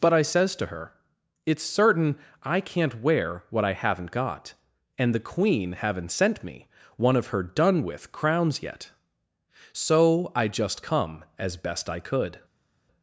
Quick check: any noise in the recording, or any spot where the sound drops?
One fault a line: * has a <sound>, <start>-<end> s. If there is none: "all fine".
all fine